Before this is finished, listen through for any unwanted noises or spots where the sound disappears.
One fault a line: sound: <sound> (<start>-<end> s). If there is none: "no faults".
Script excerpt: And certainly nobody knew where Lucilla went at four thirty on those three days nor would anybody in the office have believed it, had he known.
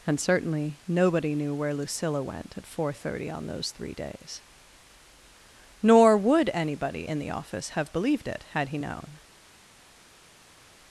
no faults